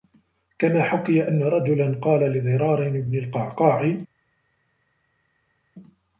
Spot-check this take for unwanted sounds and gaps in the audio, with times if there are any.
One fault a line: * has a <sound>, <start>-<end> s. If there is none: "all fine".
all fine